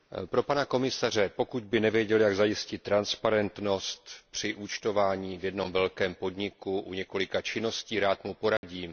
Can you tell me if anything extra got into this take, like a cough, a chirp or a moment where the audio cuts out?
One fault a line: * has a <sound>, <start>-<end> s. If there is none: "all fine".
* has a dropout, 8.6-8.6 s